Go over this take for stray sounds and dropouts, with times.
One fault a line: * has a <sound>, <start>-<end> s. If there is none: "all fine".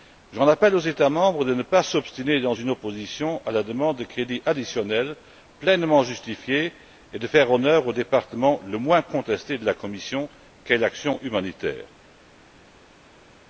all fine